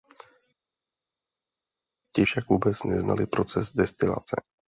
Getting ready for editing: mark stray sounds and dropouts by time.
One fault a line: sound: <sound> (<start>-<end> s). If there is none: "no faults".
no faults